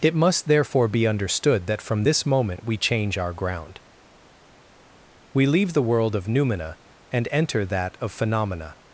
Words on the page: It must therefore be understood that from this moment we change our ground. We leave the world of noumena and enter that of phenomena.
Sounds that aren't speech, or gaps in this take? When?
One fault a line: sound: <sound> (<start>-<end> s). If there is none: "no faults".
no faults